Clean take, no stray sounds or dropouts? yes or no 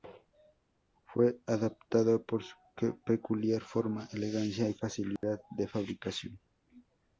no